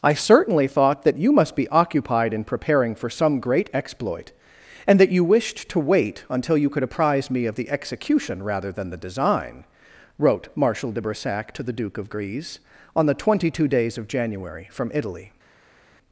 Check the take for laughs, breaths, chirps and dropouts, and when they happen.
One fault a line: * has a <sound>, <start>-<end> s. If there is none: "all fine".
all fine